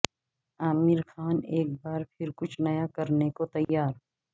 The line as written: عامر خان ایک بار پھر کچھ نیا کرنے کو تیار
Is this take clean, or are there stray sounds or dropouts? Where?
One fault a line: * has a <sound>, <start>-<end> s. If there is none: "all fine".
* has a dropout, 3.6-3.7 s